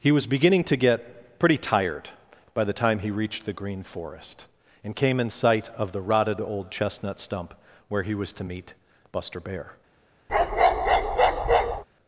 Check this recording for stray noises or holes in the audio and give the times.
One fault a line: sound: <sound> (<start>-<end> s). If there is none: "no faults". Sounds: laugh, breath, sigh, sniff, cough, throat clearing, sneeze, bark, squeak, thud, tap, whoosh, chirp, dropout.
sound: bark (10.3-11.8 s)